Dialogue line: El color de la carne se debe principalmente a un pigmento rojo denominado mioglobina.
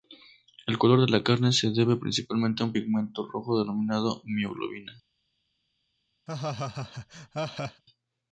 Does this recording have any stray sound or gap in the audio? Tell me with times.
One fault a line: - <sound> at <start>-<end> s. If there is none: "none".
- laugh at 6.3-7.8 s